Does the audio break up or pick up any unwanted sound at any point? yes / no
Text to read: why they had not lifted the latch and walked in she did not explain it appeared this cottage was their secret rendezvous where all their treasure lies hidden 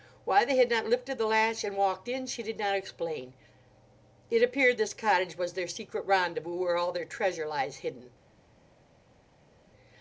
no